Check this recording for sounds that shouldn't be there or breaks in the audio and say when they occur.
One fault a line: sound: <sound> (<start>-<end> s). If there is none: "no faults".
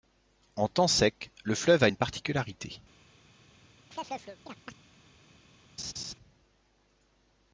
sound: chirp (3.9-4.8 s)
sound: laugh (5.8-6.1 s)